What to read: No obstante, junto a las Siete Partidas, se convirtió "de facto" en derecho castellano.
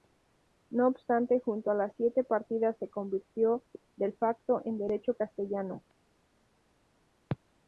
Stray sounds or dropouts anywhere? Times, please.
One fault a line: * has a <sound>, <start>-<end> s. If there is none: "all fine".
all fine